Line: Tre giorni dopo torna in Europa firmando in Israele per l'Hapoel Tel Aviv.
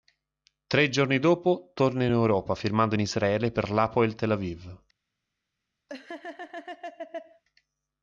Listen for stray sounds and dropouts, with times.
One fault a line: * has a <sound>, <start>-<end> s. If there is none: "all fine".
* has a laugh, 5.9-7.4 s